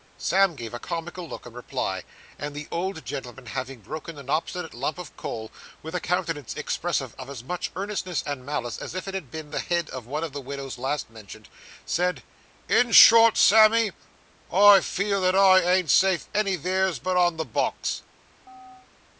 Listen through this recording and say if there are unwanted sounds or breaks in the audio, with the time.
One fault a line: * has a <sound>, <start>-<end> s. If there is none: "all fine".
* has a chirp, 18.5-18.9 s